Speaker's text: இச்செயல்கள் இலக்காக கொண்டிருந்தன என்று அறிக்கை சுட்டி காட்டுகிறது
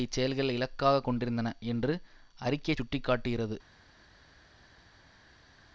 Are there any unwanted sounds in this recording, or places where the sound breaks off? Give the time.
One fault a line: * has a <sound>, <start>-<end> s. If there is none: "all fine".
all fine